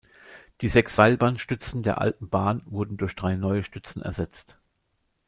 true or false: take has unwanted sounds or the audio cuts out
false